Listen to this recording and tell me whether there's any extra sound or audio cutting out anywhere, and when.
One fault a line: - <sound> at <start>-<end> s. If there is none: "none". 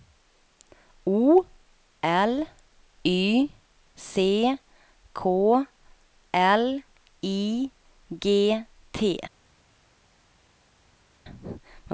none